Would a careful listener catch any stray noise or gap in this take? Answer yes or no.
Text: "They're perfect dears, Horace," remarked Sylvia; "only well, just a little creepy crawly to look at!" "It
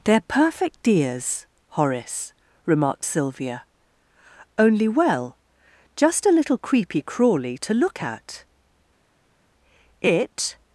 no